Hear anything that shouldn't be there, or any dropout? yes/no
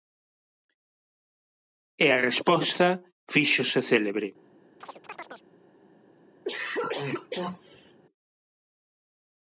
yes